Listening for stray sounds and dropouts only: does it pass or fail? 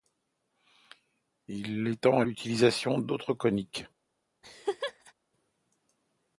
fail